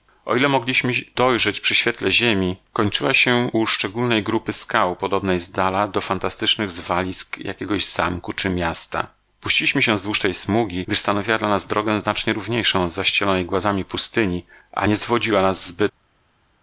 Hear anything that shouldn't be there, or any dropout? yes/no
no